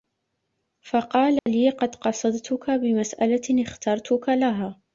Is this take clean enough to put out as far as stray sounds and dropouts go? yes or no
no